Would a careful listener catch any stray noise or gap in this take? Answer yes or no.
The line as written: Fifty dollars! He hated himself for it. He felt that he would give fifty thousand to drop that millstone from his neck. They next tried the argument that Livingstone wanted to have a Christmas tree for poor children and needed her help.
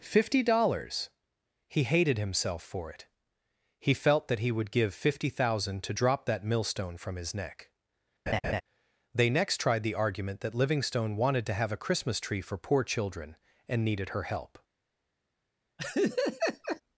yes